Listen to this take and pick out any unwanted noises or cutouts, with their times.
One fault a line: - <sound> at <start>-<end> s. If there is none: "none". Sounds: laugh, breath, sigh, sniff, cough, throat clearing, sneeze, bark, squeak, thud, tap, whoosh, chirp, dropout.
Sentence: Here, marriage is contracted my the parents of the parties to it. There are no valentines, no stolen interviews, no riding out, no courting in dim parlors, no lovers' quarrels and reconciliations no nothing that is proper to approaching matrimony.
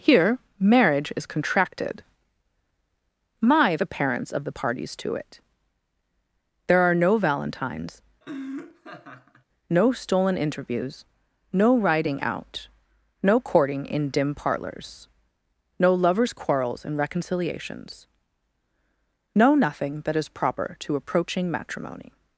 - laugh at 8.2-9.4 s